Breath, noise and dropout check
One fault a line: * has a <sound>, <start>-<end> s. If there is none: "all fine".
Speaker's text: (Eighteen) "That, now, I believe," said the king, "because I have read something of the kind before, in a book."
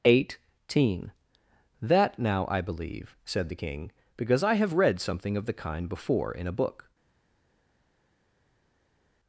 all fine